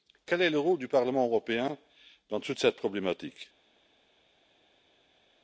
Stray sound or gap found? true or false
false